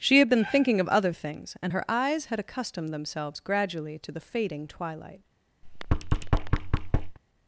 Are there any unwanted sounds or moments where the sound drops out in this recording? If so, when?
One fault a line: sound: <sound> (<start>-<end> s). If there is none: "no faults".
sound: thud (5.6-7.2 s)